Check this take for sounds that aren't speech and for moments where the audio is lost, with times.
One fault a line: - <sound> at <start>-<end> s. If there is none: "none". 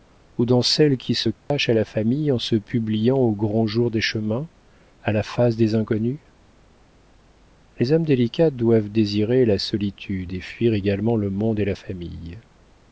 - dropout at 1.4-1.5 s